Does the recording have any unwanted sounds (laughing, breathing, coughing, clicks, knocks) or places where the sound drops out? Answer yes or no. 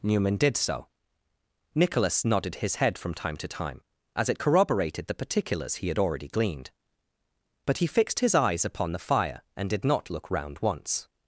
no